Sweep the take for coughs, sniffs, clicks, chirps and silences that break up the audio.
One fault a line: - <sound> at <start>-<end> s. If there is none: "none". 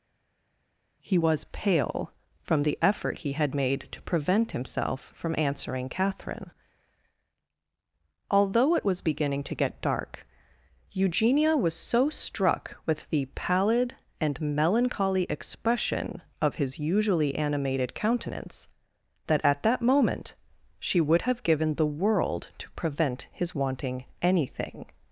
none